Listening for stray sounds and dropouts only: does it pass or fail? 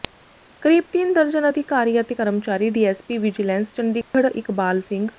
fail